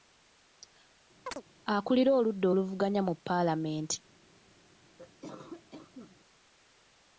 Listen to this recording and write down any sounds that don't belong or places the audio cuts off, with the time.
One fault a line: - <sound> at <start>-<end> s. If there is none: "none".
- chirp at 1.3-1.4 s
- cough at 5.0-6.2 s